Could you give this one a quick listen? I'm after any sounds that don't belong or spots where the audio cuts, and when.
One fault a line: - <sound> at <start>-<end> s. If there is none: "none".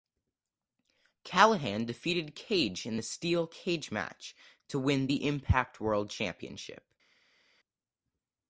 none